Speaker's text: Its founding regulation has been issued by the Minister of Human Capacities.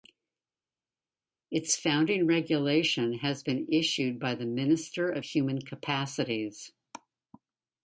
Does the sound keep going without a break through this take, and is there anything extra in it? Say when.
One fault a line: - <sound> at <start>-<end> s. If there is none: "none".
none